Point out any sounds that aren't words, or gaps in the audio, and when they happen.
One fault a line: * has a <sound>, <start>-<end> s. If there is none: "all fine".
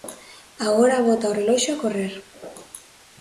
all fine